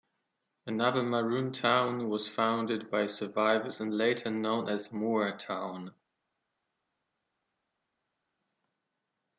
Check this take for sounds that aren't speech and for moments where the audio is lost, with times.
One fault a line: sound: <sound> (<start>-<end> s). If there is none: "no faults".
no faults